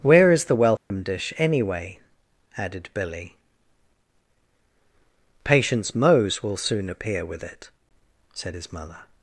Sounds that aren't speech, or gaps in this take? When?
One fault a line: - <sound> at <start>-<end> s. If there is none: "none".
- dropout at 0.8-0.9 s